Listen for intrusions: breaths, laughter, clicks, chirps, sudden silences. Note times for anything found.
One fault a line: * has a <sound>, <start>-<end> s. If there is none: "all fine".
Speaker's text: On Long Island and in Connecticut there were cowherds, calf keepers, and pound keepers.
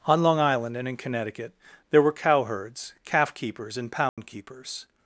* has a dropout, 4.1-4.2 s